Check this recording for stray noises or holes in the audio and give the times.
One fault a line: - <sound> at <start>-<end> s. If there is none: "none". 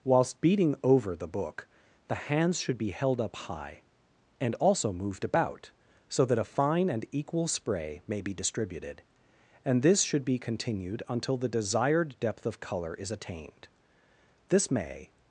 none